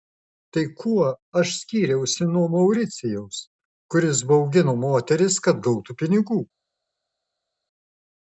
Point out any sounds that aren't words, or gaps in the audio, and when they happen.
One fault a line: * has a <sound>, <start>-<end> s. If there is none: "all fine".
all fine